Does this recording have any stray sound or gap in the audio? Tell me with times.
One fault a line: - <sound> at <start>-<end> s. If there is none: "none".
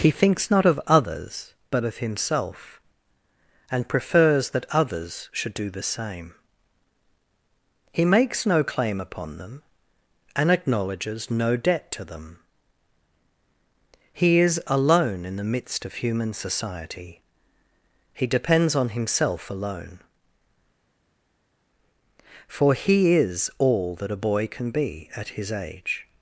none